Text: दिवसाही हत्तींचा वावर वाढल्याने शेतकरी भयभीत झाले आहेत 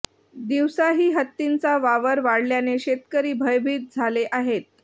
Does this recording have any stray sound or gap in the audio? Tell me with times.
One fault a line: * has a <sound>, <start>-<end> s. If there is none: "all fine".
all fine